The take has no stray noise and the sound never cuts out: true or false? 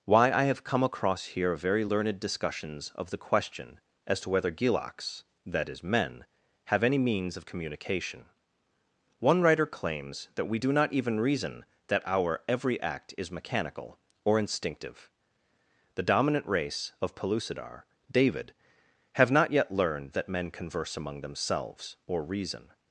true